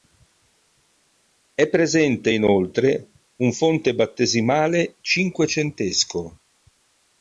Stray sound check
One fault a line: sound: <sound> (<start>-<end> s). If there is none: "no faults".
no faults